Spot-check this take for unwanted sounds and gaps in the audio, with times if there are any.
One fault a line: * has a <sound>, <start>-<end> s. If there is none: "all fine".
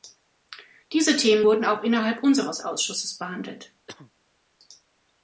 * has a cough, 3.9-4.1 s